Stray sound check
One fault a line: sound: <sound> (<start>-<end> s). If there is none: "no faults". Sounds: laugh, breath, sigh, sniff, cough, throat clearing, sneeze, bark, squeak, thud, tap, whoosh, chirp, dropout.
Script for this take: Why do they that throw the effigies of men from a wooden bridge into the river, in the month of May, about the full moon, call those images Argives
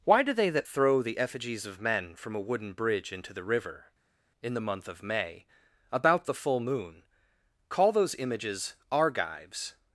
no faults